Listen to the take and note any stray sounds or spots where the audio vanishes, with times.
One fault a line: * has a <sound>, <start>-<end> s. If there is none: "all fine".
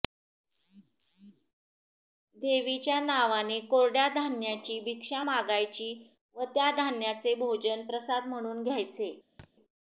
* has a thud, 9.4-9.5 s